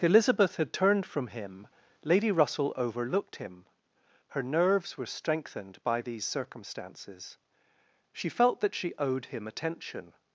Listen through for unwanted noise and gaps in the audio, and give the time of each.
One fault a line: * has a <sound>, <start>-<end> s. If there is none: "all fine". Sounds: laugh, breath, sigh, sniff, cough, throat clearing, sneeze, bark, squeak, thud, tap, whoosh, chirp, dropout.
all fine